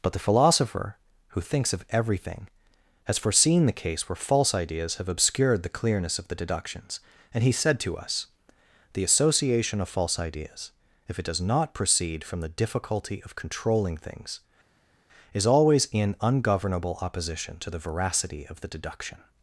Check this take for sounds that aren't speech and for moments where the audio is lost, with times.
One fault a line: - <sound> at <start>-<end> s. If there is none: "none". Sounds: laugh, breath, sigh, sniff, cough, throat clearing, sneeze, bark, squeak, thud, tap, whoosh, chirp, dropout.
none